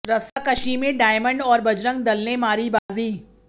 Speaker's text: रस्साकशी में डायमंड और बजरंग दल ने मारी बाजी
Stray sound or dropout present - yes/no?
yes